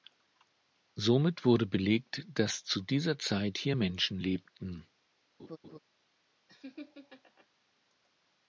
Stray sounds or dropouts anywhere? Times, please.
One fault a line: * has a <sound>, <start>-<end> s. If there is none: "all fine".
* has a laugh, 5.4-5.8 s
* has a laugh, 6.5-7.5 s